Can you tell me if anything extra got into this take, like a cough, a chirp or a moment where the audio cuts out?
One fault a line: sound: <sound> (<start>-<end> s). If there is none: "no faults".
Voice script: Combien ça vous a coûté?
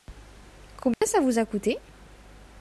sound: dropout (0.9-1.0 s)